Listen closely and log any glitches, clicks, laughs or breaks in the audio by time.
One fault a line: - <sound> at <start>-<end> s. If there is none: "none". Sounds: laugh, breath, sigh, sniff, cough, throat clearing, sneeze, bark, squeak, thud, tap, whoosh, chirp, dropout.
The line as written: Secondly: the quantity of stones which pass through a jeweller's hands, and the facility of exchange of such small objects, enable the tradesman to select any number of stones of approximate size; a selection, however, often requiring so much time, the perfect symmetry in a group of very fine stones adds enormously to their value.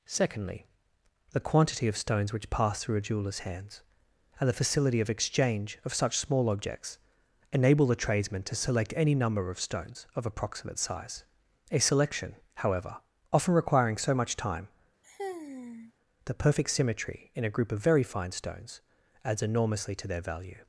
- sigh at 15.0-15.9 s